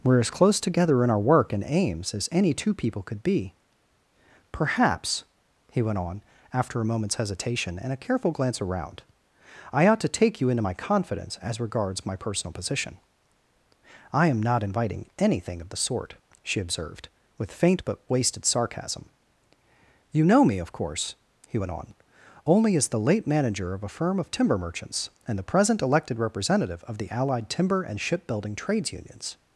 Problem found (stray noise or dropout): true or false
false